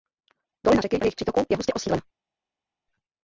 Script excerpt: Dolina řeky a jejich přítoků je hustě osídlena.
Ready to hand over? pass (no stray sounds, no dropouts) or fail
pass